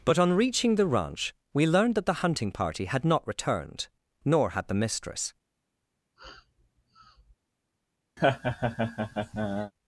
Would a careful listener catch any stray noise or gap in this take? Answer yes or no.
yes